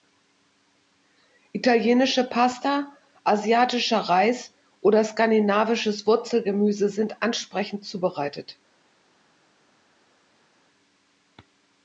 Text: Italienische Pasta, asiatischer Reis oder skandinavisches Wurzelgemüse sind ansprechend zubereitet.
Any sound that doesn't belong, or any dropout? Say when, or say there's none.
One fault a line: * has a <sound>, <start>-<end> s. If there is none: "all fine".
all fine